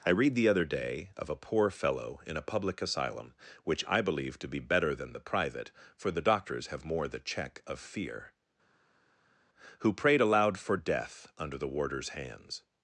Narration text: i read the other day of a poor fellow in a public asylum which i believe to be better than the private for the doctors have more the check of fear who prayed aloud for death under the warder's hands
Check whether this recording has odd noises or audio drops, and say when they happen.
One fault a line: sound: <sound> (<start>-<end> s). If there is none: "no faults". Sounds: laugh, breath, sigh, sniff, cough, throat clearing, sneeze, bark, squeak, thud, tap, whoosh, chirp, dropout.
no faults